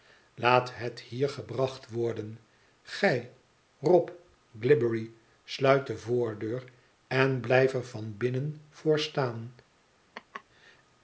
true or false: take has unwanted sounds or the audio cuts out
true